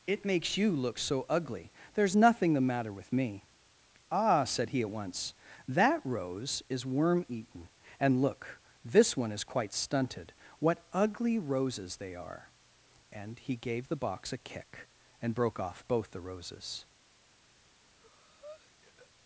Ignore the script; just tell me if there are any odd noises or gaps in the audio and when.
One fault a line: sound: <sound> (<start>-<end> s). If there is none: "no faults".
sound: breath (18.0-19.1 s)